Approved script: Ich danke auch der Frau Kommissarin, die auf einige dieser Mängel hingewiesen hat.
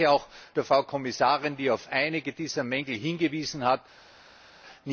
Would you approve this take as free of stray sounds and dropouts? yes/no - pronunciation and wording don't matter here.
yes